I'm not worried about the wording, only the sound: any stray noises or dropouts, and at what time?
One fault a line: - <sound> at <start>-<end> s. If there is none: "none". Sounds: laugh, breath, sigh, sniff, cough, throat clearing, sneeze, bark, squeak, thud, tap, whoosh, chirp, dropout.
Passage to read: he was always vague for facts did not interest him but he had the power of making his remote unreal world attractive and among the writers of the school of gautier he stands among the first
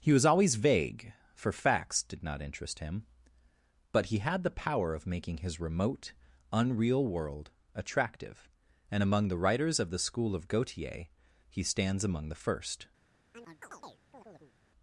- chirp at 13.3-14.5 s